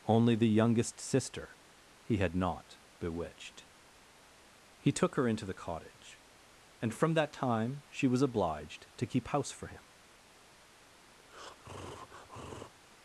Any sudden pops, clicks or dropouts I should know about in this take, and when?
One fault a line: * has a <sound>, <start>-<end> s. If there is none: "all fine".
* has a breath, 11.2-12.7 s